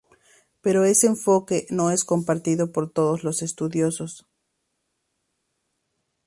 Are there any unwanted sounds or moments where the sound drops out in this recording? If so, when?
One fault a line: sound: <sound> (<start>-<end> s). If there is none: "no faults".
no faults